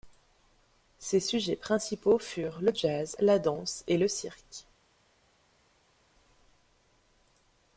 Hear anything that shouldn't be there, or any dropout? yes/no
no